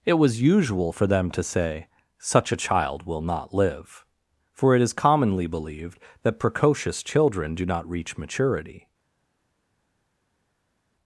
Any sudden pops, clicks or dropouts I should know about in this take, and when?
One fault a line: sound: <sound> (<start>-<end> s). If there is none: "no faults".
no faults